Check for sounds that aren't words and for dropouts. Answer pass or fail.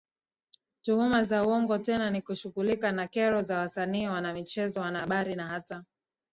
pass